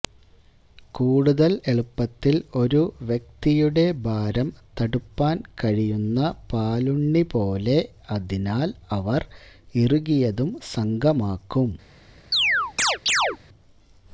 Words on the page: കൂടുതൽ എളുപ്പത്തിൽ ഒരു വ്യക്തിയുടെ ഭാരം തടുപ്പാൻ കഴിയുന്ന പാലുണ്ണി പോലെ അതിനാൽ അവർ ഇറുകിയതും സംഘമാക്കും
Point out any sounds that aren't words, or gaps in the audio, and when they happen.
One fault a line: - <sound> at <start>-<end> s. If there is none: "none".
- chirp at 12.3-13.4 s